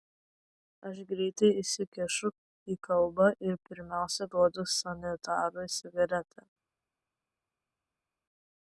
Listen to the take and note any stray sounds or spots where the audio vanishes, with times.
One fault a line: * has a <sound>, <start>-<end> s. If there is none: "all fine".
all fine